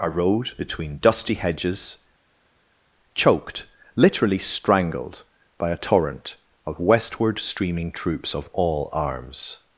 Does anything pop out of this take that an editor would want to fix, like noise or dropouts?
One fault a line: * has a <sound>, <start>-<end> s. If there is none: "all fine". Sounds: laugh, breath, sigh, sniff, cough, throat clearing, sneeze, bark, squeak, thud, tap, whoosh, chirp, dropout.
all fine